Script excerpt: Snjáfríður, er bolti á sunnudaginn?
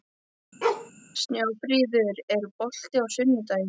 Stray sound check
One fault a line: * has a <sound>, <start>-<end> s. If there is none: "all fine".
* has a bark, 0.6-0.9 s